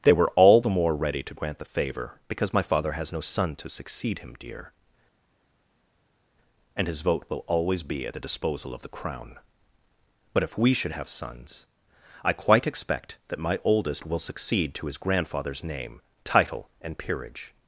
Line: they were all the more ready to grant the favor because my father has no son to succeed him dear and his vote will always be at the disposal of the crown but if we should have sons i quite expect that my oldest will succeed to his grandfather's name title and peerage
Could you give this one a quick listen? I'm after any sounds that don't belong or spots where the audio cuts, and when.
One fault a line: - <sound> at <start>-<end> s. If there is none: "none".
none